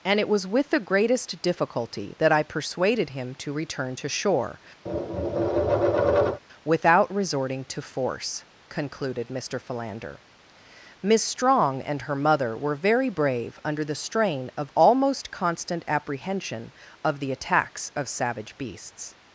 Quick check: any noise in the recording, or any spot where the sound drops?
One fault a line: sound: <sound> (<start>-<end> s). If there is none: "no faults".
sound: tap (4.9-6.4 s)